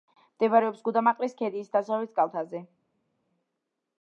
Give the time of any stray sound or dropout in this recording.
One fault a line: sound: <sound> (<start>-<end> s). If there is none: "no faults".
no faults